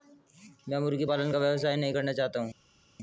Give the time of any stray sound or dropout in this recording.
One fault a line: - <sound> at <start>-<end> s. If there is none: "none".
none